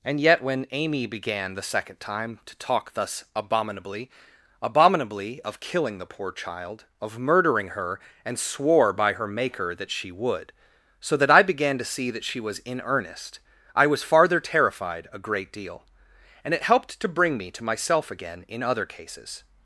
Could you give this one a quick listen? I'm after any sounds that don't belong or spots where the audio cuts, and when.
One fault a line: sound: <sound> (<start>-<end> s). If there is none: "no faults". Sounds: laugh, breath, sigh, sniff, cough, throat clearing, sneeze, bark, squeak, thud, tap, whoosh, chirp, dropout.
no faults